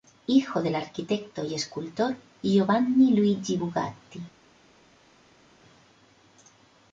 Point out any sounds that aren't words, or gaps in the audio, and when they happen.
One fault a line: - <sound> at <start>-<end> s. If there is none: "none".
none